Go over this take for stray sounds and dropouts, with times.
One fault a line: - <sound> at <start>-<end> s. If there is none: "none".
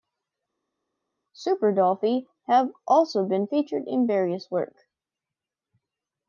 none